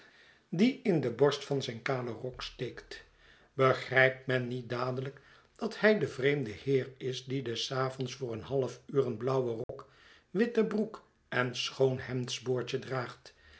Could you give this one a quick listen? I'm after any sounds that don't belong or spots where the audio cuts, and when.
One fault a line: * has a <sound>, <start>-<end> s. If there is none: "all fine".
* has a dropout, 9.6-9.7 s